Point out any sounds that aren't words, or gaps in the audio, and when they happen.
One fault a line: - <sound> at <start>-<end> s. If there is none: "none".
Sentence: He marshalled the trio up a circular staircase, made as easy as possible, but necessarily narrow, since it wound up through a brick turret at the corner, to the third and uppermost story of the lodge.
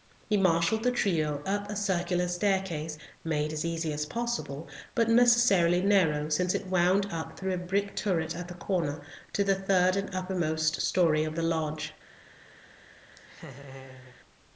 - laugh at 13.2-14.2 s